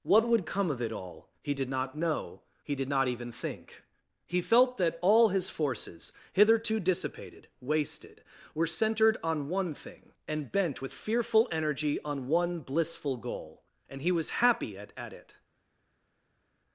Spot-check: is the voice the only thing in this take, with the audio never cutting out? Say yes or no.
yes